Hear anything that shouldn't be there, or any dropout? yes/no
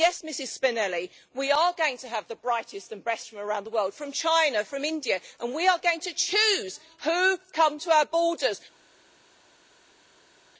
no